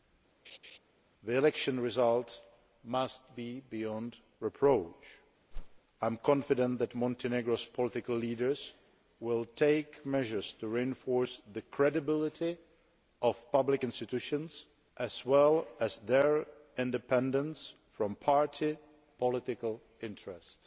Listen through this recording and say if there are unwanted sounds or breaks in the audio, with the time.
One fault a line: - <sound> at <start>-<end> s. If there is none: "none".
- laugh at 0.4-0.8 s
- whoosh at 5.5-5.8 s